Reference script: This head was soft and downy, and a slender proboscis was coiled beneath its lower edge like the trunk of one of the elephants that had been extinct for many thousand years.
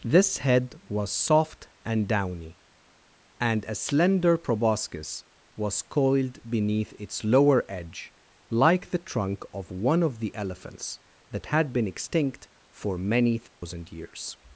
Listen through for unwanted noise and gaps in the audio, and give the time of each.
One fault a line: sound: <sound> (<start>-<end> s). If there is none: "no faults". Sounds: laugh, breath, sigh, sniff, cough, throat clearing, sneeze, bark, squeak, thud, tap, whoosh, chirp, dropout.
sound: dropout (13.5-13.6 s)